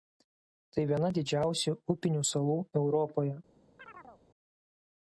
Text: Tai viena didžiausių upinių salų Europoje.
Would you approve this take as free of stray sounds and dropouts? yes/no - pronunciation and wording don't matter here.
no